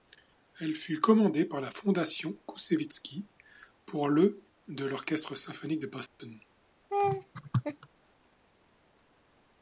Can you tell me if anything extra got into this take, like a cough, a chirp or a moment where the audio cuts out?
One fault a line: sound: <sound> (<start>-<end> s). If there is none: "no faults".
sound: dropout (6.1-6.2 s)
sound: laugh (6.9-7.9 s)